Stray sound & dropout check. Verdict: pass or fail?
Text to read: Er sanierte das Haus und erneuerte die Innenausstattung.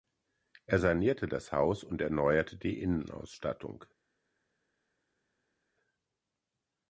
pass